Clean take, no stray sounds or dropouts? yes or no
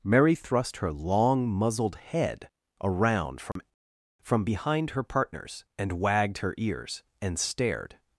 no